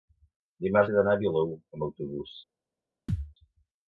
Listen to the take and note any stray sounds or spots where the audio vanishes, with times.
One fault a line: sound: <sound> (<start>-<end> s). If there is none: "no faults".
sound: thud (3.1-3.3 s)